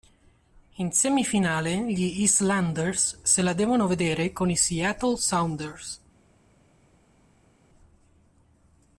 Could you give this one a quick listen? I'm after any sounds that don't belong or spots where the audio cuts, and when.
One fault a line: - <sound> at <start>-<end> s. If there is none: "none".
none